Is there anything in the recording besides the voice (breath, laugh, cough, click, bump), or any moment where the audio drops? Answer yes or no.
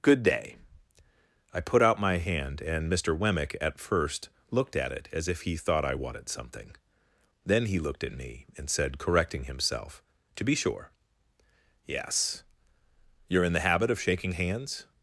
no